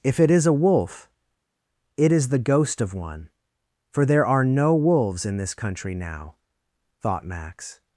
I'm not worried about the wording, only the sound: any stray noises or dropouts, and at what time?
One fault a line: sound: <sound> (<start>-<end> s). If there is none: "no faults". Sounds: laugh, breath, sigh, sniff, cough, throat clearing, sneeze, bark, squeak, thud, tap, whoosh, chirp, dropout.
no faults